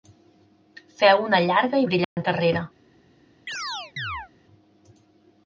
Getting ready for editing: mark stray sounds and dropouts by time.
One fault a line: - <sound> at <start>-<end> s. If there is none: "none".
- dropout at 2.0-2.2 s
- chirp at 3.5-4.3 s